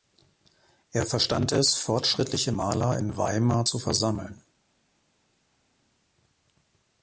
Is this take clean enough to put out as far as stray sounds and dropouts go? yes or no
yes